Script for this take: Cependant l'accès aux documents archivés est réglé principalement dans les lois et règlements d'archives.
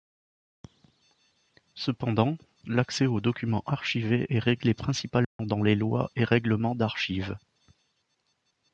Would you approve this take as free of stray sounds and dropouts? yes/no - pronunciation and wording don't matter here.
no